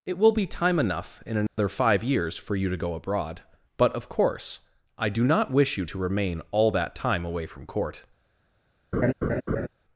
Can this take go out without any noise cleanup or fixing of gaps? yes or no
no